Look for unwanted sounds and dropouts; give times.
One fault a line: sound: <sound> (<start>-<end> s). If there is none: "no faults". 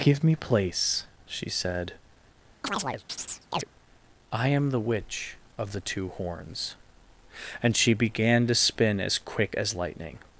sound: chirp (2.6-3.7 s)